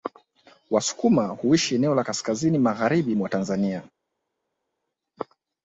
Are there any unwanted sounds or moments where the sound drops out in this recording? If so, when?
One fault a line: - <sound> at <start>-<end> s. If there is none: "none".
none